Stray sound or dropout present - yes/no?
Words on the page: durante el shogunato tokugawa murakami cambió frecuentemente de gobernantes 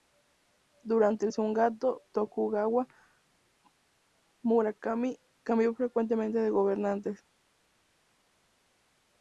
no